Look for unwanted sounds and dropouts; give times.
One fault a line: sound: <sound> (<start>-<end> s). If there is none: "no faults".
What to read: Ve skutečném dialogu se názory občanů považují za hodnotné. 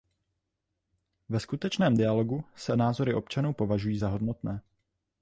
no faults